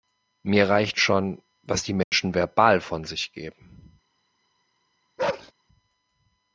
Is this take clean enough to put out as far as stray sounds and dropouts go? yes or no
no